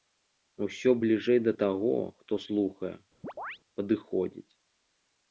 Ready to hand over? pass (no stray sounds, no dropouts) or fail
fail